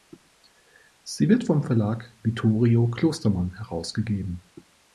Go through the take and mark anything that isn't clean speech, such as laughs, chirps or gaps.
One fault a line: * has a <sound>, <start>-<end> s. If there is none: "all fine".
all fine